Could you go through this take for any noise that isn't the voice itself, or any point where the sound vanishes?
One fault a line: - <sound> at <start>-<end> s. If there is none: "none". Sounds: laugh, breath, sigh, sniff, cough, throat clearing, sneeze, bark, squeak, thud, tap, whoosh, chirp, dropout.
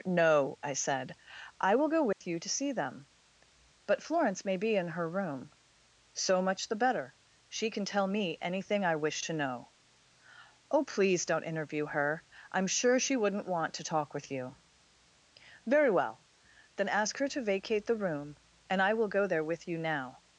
- dropout at 2.1-2.2 s